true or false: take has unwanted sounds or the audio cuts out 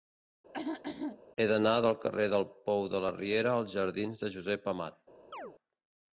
true